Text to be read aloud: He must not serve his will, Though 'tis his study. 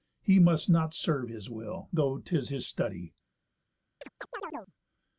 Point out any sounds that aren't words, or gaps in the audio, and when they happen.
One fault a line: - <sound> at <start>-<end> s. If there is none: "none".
- chirp at 4.0-4.7 s